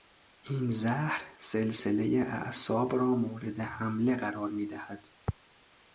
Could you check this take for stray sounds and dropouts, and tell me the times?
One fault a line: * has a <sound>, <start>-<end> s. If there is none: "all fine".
all fine